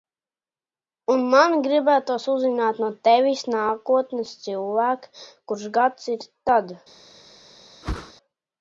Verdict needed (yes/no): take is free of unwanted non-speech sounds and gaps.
no